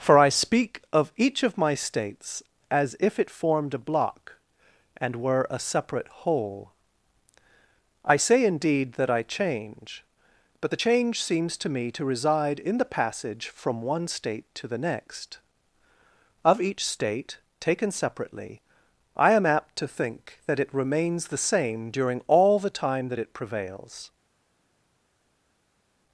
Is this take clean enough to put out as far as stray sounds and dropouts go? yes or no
yes